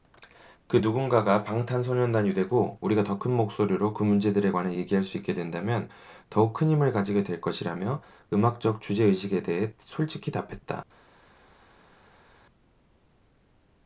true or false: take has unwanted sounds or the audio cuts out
false